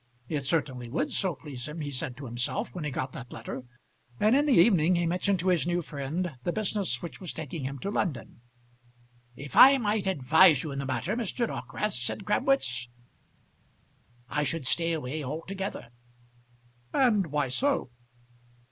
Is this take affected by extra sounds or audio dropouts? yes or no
no